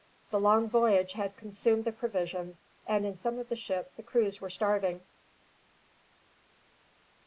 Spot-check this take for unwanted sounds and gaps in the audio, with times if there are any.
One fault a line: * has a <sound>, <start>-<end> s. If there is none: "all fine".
all fine